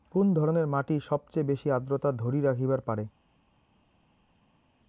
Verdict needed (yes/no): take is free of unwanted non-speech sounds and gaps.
yes